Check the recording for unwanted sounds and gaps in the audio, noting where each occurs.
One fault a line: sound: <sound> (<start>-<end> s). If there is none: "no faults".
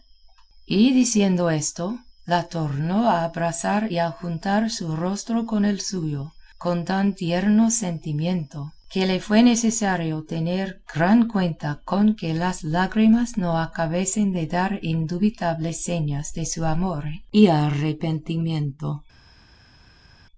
no faults